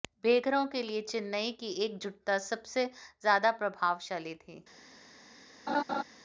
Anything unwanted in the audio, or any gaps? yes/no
yes